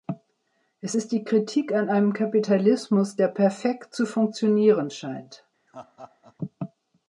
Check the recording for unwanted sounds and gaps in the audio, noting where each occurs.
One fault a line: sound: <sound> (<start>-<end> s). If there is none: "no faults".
sound: laugh (5.7-6.4 s)